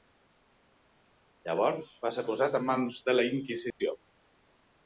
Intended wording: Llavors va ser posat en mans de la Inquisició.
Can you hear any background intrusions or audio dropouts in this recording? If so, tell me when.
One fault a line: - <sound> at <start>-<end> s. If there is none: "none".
- dropout at 3.7-3.8 s